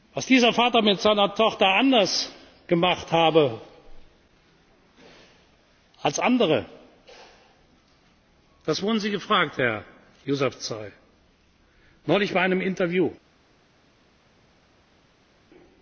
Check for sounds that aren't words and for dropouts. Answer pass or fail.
pass